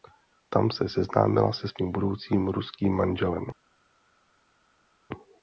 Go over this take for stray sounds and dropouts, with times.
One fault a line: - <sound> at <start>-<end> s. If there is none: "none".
none